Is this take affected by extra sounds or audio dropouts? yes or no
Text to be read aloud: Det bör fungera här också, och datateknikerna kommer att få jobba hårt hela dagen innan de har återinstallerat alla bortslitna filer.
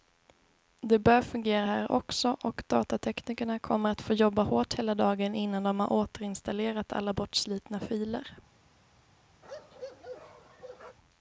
yes